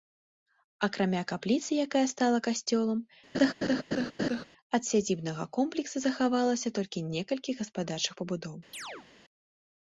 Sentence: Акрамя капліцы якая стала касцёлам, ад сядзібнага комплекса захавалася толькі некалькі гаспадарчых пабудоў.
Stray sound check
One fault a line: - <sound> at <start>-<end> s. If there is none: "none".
- laugh at 3.3-4.4 s
- chirp at 8.7-9.1 s